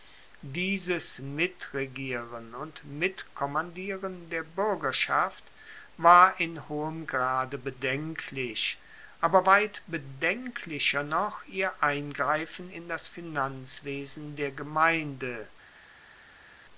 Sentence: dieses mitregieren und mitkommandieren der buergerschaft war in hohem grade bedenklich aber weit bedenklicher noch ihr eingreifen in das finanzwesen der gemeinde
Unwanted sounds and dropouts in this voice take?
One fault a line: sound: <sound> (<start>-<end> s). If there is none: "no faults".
no faults